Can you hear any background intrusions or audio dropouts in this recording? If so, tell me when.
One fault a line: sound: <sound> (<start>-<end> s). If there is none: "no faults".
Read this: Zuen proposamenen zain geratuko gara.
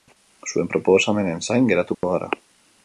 sound: dropout (1.9-2.0 s)